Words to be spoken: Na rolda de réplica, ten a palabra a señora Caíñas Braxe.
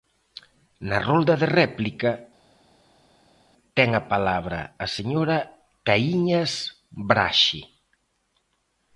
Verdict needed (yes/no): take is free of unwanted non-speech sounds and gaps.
yes